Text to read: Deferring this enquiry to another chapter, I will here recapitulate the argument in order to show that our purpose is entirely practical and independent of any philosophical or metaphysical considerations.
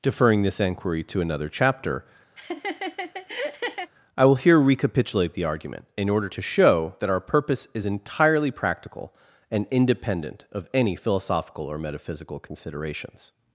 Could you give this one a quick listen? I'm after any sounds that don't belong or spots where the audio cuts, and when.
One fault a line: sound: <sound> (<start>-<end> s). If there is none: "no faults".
sound: laugh (2.4-3.9 s)